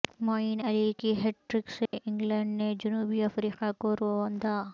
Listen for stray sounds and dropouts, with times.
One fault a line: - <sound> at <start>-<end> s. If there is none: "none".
- dropout at 1.9-1.9 s